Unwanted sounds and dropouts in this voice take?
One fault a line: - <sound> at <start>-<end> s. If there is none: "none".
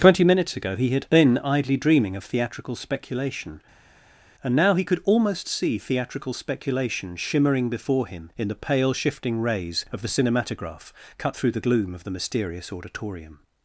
none